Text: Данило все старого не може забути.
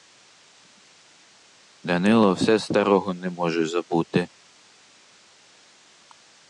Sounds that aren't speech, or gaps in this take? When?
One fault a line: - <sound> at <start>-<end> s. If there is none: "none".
none